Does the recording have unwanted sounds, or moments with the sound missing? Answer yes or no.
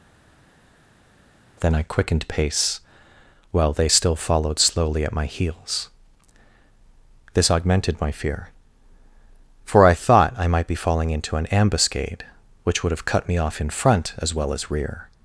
no